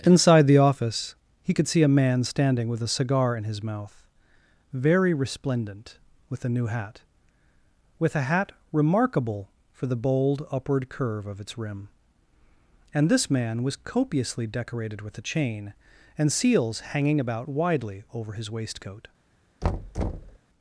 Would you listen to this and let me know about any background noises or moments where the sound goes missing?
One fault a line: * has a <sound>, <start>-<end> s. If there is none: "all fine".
* has a thud, 19.6-20.4 s